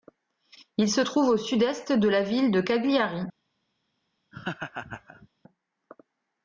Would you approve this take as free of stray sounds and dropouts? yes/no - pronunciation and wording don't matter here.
no